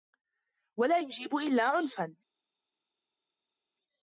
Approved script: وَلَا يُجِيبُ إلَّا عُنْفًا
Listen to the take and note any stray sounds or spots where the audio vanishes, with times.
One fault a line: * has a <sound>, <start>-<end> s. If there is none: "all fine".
all fine